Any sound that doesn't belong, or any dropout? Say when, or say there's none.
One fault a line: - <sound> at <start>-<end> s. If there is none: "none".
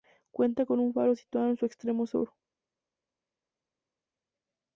none